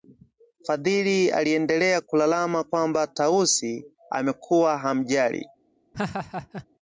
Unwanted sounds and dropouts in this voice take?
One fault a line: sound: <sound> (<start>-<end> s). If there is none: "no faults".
sound: laugh (5.9-6.7 s)